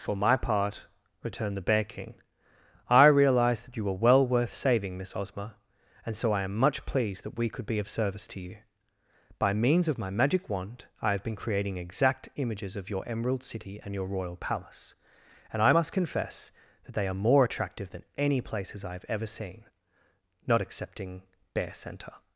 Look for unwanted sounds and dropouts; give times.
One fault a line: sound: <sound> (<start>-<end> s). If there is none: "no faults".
no faults